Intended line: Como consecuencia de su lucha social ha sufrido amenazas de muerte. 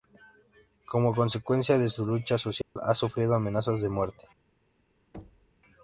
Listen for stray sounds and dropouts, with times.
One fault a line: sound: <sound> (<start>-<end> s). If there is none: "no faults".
sound: dropout (2.6-2.8 s)
sound: thud (5.1-5.5 s)